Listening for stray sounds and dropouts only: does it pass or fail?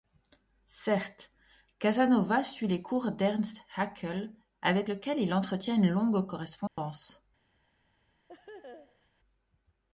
fail